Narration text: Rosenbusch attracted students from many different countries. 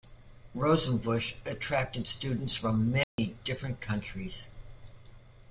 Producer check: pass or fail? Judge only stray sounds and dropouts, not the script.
fail